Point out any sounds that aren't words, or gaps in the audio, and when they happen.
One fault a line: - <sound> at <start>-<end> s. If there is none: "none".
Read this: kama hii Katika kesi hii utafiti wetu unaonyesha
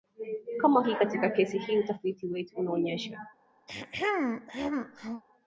- throat clearing at 3.7-5.2 s